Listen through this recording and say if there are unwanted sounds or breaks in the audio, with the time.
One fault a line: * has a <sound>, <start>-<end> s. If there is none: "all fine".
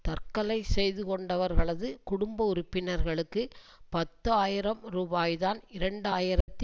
* has a dropout, 6.4-6.5 s